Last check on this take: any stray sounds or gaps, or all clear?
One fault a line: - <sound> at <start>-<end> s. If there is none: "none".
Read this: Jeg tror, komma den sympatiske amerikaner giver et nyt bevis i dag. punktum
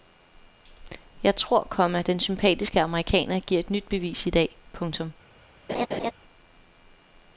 - laugh at 5.7-6.1 s